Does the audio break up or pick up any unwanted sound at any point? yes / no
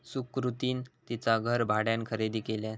no